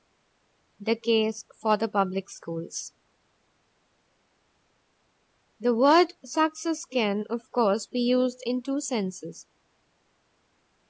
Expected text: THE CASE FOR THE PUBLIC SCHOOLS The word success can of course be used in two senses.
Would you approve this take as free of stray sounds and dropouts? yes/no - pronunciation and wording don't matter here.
yes